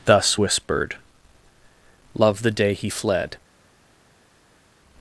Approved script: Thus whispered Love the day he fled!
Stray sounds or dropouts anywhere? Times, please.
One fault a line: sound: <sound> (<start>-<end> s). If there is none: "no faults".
no faults